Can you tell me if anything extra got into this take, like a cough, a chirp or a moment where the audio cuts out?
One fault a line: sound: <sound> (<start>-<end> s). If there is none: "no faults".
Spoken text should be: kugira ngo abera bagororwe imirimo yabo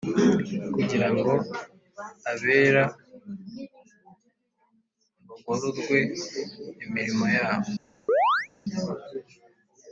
sound: chirp (8.1-8.5 s)